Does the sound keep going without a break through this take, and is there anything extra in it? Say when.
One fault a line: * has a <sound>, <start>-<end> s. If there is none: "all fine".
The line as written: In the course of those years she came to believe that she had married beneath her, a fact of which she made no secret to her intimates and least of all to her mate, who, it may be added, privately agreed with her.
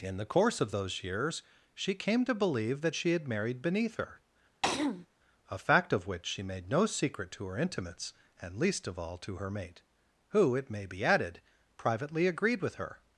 * has a throat clearing, 4.6-5.1 s